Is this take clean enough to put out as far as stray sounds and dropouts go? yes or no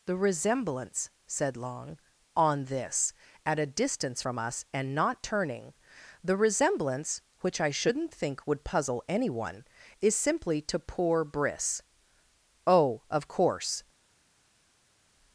yes